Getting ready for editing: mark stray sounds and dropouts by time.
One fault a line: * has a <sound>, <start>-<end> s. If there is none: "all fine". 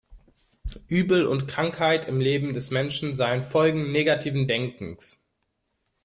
all fine